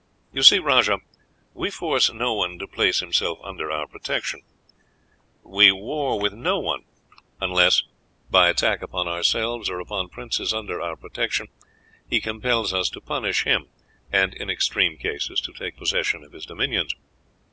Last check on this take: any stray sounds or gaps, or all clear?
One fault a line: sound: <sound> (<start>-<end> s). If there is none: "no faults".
no faults